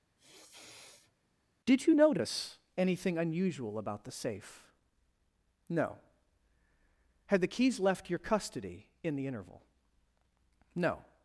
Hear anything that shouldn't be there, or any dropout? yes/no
yes